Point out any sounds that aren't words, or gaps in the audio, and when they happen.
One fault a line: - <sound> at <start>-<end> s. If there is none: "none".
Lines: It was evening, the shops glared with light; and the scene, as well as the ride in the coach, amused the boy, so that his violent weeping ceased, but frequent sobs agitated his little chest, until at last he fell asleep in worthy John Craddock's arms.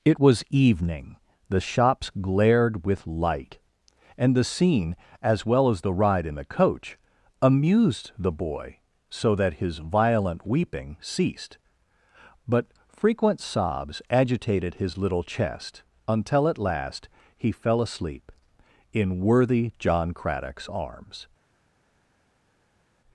none